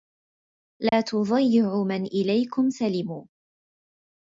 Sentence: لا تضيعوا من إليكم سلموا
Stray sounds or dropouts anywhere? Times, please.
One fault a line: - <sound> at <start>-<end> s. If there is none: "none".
- dropout at 0.9-0.9 s